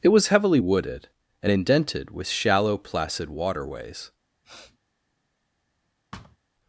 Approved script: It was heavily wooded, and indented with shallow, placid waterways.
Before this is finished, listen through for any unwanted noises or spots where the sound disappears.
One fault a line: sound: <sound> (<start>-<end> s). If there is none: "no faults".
sound: sniff (4.4-4.8 s)
sound: thud (6.1-6.4 s)